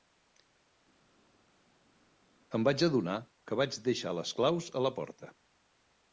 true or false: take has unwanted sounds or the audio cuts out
false